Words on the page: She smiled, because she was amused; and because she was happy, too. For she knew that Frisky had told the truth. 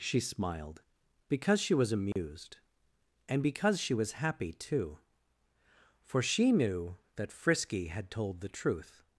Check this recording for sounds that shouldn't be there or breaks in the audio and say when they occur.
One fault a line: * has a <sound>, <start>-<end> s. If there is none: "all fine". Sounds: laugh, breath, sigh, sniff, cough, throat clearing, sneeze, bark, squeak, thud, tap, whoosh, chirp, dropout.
* has a dropout, 2.1-2.2 s